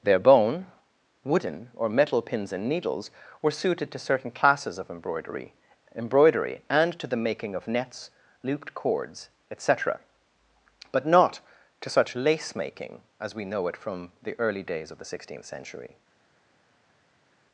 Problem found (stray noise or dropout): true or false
false